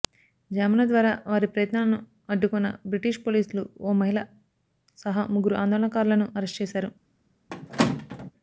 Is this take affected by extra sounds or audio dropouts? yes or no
yes